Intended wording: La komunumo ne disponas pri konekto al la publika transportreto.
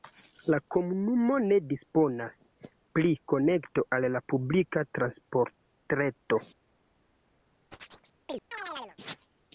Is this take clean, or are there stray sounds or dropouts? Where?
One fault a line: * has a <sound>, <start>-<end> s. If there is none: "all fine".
* has a chirp, 7.7-9.0 s